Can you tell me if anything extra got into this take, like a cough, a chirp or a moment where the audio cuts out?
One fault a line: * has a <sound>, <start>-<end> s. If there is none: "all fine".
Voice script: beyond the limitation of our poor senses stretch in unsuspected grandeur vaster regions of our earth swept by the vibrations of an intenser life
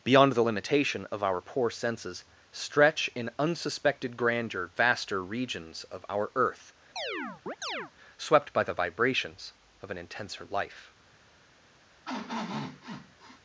* has a chirp, 7.0-7.9 s
* has a sniff, 12.1-13.4 s